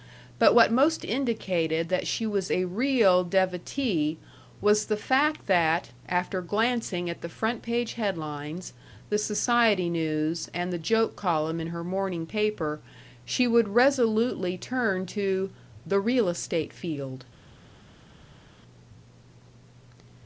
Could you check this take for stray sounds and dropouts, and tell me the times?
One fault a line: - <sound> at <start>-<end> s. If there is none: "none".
none